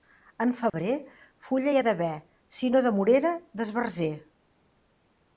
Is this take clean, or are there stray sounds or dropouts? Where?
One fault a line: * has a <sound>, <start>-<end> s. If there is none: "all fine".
* has a dropout, 0.7-0.7 s